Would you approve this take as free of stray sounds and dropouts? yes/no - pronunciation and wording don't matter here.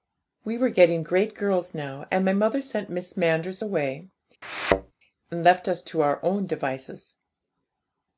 no